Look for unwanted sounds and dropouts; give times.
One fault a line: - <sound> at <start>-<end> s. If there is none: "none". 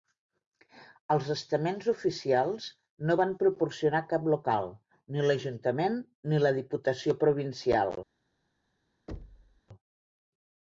- thud at 9.1-9.6 s